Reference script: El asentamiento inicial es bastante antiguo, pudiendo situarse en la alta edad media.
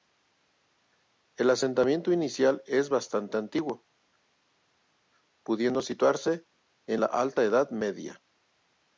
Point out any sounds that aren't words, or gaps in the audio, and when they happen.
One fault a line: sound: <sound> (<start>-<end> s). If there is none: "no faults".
no faults